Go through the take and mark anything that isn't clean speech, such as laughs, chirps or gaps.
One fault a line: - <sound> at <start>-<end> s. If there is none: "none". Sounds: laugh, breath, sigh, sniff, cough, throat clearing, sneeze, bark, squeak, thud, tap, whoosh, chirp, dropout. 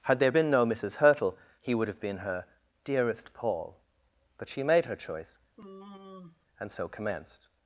- sigh at 5.6-6.5 s